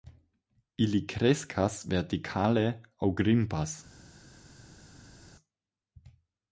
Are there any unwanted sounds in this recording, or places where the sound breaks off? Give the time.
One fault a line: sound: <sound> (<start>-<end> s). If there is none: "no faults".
no faults